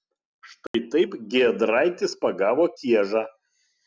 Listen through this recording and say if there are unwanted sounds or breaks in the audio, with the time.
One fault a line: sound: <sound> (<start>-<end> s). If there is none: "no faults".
sound: dropout (0.7-0.7 s)